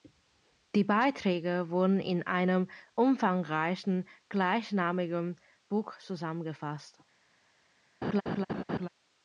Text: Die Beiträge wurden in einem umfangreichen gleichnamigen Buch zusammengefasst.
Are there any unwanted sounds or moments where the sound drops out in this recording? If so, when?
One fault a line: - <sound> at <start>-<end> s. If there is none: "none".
- laugh at 8.0-8.9 s